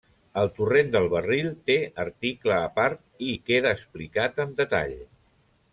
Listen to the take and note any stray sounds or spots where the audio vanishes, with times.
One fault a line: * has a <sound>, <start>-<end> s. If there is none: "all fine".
all fine